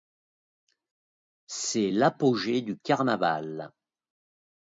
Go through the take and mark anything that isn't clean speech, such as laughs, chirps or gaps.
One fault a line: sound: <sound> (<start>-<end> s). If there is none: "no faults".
no faults